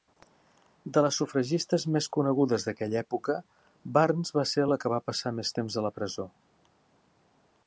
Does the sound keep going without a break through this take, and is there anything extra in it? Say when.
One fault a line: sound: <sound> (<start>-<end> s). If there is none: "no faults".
no faults